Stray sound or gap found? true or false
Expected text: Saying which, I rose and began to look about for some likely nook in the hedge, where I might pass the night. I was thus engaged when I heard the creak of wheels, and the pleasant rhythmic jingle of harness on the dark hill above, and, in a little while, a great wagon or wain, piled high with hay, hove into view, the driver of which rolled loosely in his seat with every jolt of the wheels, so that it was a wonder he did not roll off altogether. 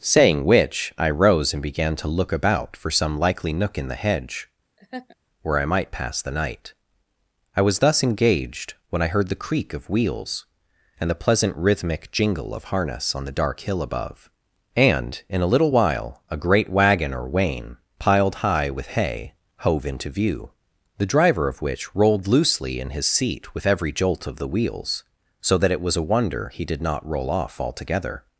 true